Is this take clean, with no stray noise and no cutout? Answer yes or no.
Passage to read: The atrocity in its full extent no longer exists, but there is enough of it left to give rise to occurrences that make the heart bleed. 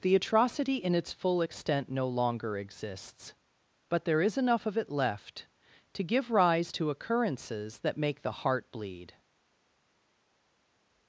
yes